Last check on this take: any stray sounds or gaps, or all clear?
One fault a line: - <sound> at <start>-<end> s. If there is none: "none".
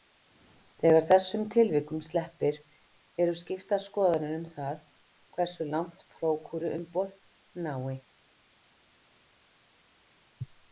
none